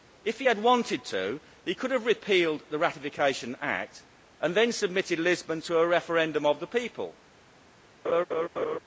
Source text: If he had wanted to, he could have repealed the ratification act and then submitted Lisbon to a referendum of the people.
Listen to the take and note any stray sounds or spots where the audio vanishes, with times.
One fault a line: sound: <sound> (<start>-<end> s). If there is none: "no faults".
sound: laugh (8.0-8.8 s)